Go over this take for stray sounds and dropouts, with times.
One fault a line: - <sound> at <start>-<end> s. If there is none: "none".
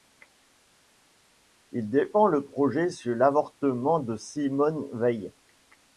none